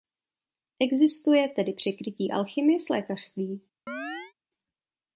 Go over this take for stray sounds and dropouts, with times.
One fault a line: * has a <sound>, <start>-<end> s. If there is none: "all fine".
* has a chirp, 3.9-4.3 s